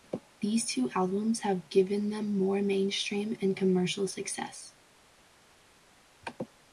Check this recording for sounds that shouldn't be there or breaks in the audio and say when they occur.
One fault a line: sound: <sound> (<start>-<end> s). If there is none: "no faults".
no faults